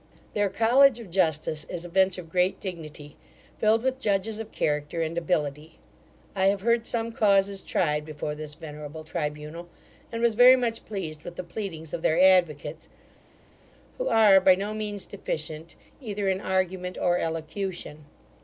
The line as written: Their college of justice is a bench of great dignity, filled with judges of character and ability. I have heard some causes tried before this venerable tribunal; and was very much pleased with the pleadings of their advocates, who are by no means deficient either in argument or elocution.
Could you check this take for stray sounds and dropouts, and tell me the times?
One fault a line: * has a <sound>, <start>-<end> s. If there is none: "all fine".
all fine